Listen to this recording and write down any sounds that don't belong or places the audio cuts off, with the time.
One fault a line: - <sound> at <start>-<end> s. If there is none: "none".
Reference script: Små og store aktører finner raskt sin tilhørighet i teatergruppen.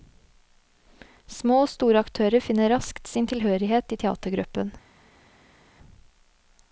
none